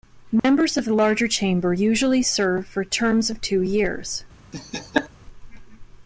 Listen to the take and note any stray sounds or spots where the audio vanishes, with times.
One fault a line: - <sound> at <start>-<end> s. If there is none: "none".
- dropout at 0.4-0.4 s
- laugh at 4.5-5.1 s